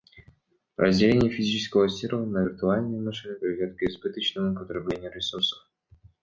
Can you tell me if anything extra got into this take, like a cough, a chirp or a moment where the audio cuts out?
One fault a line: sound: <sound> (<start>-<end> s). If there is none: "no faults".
no faults